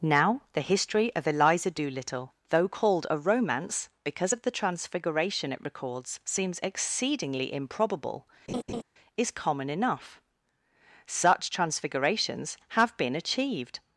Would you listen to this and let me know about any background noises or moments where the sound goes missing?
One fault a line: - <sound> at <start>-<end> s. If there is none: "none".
- laugh at 8.5-8.8 s